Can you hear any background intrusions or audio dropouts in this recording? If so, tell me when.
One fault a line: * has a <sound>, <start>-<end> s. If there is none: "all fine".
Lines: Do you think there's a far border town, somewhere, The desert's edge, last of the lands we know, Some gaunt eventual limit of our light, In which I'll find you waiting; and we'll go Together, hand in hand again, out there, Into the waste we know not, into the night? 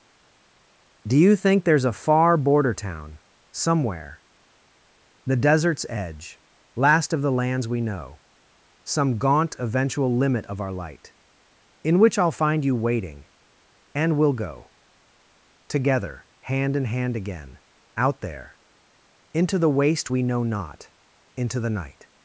all fine